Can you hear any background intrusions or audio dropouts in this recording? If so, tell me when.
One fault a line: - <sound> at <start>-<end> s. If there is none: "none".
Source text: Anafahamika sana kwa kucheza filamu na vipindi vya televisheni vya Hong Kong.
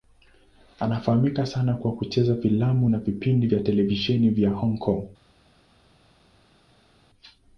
none